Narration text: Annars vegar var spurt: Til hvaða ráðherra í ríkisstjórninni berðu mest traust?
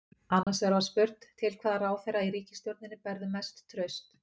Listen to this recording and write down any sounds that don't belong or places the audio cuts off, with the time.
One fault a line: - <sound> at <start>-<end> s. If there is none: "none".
- dropout at 0.4-0.5 s